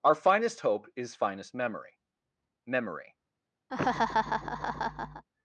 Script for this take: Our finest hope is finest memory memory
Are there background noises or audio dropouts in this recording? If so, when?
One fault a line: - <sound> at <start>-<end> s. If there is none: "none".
- laugh at 3.7-5.2 s